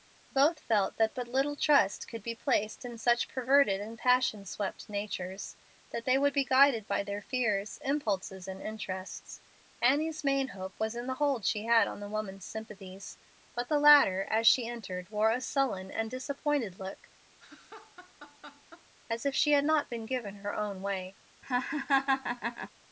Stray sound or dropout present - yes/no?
yes